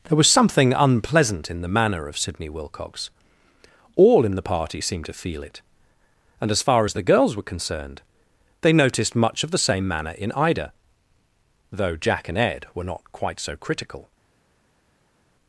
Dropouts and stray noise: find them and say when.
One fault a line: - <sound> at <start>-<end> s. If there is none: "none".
none